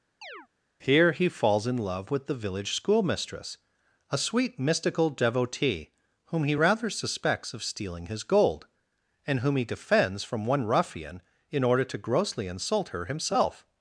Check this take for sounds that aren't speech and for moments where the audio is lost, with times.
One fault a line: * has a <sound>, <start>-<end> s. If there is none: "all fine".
* has a chirp, 0.2-0.5 s